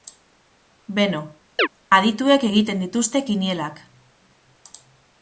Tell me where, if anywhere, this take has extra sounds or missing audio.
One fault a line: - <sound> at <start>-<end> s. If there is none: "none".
- chirp at 1.6-1.7 s